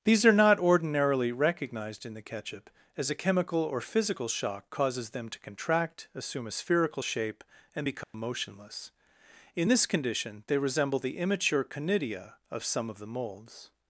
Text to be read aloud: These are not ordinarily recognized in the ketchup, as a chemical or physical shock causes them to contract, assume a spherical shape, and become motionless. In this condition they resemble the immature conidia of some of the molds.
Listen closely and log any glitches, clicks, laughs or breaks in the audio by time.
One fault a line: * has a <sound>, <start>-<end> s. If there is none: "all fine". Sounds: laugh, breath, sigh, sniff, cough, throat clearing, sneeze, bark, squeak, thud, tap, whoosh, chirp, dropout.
* has a dropout, 8.0-8.1 s